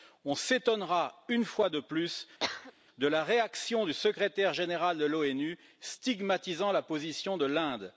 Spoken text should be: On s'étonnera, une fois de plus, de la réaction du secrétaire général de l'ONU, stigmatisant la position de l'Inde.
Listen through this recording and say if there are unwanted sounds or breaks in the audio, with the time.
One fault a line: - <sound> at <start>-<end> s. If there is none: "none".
- cough at 2.4-2.7 s